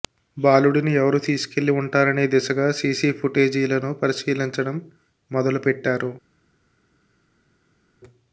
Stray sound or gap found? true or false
false